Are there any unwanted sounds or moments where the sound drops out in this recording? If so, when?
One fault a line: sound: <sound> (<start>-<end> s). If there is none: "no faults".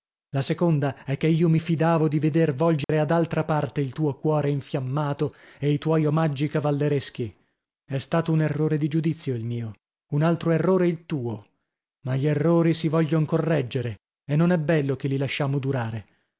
sound: dropout (2.8-2.9 s)